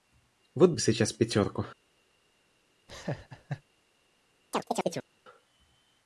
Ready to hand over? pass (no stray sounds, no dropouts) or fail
fail